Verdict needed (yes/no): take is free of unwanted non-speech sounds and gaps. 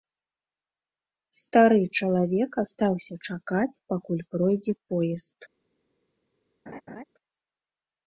no